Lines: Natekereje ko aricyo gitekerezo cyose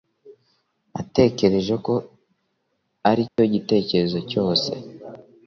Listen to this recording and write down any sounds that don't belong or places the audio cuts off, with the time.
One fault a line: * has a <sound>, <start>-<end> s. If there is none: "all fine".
* has a dropout, 3.3-3.4 s